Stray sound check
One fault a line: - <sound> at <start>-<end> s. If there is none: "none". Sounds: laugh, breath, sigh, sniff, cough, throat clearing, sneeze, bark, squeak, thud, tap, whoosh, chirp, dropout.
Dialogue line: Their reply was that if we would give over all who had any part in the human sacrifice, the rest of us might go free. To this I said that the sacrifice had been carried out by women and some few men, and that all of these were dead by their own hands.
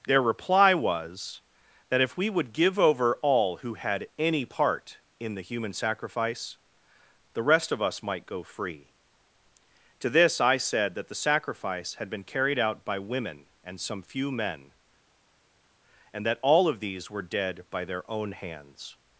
none